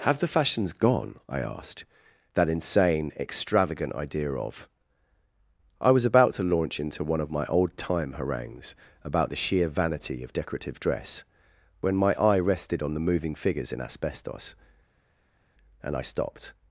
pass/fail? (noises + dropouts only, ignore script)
pass